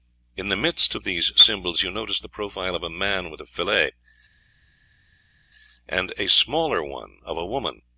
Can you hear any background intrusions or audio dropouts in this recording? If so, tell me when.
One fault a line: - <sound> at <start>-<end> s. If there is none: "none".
none